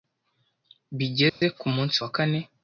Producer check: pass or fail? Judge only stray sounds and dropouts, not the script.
fail